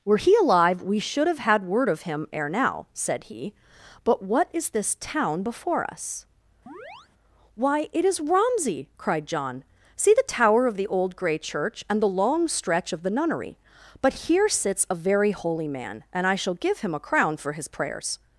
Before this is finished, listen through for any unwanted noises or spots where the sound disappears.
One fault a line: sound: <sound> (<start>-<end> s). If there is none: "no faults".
sound: chirp (6.7-7.1 s)